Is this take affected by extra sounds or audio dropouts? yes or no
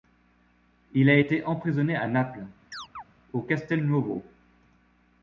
yes